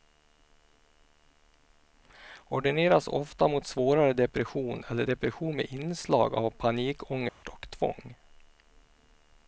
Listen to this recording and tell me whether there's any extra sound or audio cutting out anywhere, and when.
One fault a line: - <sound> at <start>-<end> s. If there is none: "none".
- dropout at 7.3-7.4 s